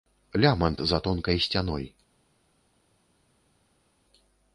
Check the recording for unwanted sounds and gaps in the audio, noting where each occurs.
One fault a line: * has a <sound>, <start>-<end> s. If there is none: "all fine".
all fine